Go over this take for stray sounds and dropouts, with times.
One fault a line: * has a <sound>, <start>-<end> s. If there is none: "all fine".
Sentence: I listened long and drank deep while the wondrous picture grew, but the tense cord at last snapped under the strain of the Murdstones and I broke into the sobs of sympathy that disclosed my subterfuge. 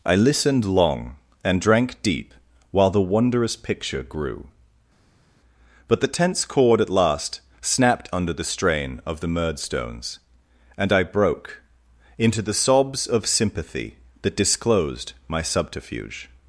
all fine